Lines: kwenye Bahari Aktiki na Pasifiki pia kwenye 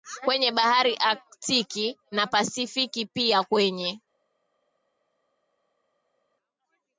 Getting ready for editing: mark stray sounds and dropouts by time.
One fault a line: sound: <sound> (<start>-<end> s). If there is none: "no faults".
no faults